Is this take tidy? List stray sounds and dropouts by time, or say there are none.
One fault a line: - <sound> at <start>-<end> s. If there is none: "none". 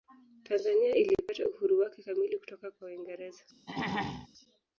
- throat clearing at 3.7-4.3 s